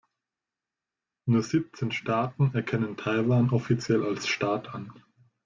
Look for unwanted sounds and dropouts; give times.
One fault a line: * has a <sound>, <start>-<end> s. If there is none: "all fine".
all fine